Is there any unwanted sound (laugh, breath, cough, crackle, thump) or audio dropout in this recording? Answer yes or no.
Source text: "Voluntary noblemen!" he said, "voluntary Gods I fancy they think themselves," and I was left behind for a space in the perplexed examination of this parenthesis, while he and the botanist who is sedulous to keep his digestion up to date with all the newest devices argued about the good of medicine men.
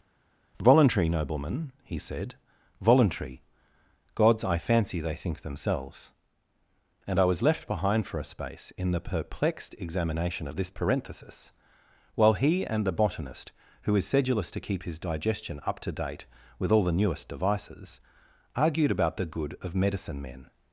no